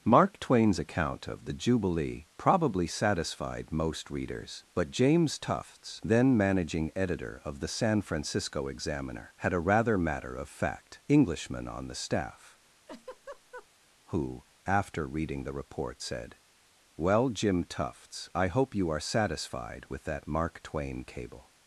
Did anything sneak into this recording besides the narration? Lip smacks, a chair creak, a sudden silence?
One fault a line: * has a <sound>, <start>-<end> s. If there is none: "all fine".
* has a laugh, 12.9-13.7 s